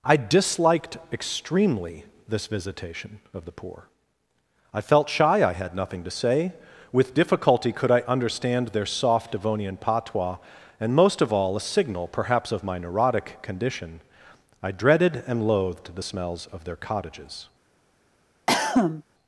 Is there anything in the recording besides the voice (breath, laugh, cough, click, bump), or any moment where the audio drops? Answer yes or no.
yes